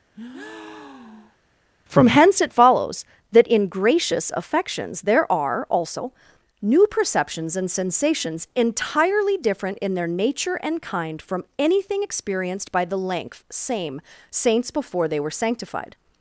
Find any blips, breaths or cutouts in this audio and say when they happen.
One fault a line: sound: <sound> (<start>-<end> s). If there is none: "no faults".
sound: breath (0.1-1.4 s)